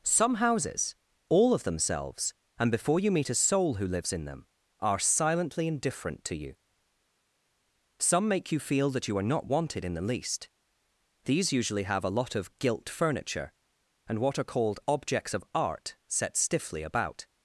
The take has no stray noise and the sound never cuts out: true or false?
true